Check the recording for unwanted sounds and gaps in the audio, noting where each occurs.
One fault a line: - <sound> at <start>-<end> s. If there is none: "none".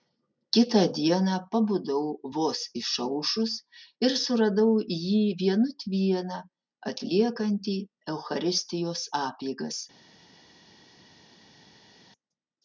none